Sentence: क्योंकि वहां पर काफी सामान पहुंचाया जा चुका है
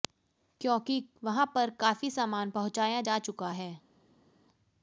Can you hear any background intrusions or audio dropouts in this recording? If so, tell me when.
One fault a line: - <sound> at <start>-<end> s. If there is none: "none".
none